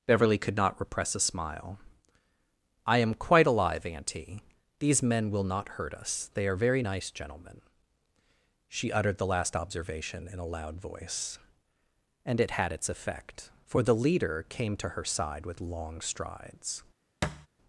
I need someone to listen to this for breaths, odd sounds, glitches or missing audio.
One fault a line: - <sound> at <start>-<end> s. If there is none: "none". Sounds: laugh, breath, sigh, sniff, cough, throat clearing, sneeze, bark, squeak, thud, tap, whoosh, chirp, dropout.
- thud at 17.2-17.5 s